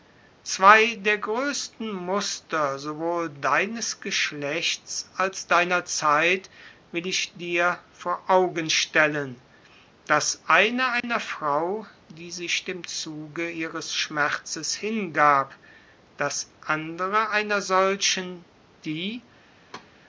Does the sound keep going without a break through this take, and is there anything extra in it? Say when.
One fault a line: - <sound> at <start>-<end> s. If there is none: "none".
- dropout at 11.0-11.0 s
- thud at 19.7-19.9 s